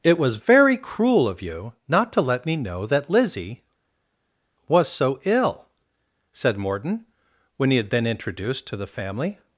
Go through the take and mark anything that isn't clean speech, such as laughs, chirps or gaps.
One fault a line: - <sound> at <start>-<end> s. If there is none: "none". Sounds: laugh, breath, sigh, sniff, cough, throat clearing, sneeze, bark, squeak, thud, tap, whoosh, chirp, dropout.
none